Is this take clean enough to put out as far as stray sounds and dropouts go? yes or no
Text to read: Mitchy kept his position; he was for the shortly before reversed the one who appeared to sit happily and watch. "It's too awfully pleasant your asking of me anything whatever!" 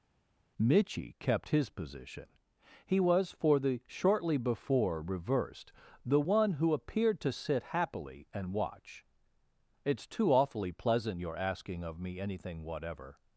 yes